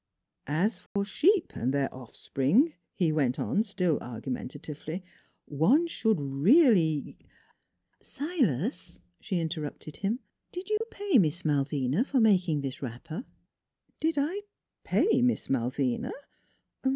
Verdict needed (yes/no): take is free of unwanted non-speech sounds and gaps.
no